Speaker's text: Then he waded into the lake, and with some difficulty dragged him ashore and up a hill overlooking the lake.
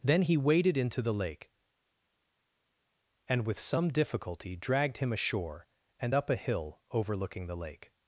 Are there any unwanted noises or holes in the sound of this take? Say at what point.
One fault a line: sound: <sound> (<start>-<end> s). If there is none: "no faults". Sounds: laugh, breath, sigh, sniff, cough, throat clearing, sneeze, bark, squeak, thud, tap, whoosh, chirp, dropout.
no faults